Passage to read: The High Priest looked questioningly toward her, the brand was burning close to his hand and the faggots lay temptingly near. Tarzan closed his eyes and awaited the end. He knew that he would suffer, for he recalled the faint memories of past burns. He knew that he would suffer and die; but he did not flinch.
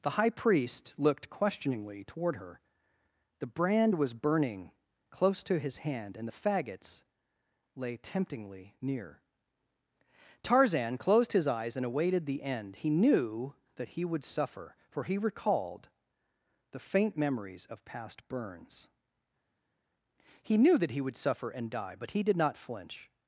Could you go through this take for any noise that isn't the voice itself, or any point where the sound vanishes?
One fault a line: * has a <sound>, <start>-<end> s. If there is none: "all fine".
all fine